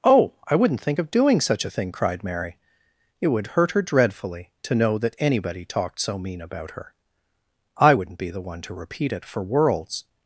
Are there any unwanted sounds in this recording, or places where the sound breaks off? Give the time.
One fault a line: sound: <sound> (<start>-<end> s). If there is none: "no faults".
no faults